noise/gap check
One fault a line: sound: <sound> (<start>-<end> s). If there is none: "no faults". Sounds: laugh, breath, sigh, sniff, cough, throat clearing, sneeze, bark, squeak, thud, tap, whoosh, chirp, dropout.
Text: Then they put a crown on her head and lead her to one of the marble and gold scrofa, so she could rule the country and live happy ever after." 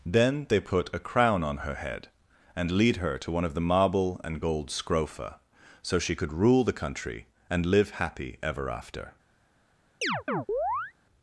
sound: chirp (10.0-10.9 s)